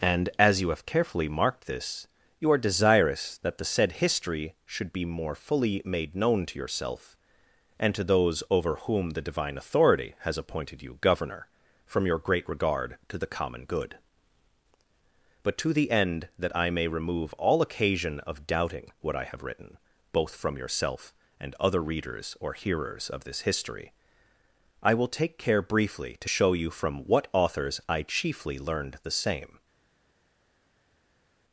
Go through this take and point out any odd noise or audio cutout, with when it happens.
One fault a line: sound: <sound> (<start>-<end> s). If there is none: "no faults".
no faults